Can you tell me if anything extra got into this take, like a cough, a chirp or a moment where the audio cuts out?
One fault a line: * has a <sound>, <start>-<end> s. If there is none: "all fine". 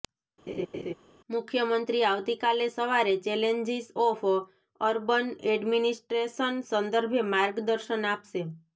* has a laugh, 0.5-0.9 s